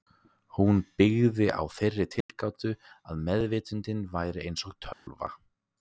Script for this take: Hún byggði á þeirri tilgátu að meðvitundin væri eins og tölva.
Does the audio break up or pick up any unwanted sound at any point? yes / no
yes